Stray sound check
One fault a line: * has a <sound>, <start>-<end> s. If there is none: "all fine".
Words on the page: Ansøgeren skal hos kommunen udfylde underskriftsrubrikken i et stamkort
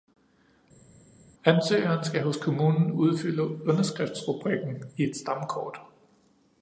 all fine